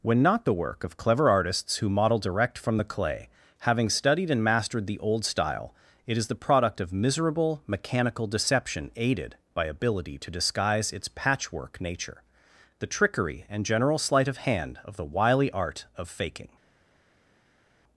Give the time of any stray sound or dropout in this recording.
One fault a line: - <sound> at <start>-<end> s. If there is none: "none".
none